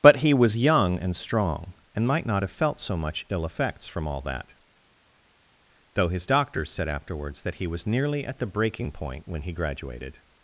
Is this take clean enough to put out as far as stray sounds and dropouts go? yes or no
yes